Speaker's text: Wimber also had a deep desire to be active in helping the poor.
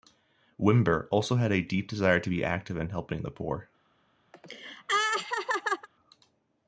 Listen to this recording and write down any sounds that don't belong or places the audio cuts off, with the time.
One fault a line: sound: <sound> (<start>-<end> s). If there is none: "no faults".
sound: laugh (4.3-5.9 s)